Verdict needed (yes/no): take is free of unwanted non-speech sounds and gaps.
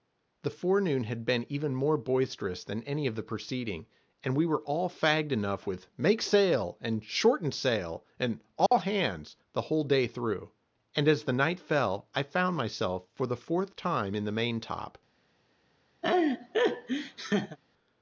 no